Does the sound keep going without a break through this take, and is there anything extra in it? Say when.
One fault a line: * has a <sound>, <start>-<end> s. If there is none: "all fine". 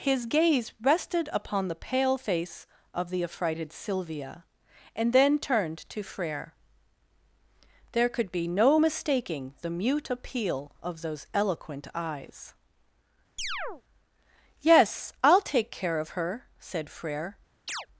* has a chirp, 13.4-13.8 s
* has a chirp, 17.7-17.9 s